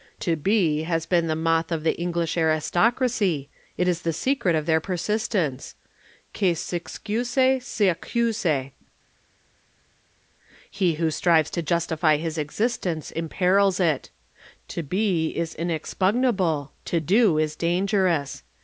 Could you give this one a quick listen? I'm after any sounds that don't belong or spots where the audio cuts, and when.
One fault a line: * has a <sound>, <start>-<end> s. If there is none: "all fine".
all fine